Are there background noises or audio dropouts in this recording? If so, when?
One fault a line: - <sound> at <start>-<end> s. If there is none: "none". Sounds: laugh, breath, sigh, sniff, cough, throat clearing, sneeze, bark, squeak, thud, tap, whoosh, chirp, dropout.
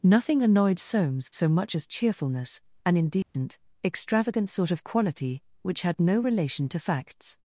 - dropout at 3.2-3.3 s